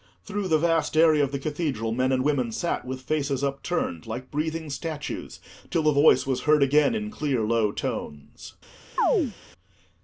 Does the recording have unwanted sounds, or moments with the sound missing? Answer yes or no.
yes